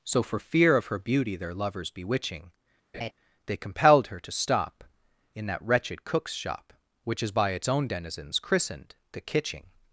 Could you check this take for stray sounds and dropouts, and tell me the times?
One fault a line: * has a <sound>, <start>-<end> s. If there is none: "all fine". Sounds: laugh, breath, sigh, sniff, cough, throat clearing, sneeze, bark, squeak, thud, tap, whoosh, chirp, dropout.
* has a laugh, 2.9-3.1 s